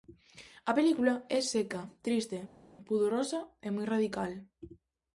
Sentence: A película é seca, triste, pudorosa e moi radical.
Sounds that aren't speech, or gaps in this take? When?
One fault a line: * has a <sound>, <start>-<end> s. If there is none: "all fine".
all fine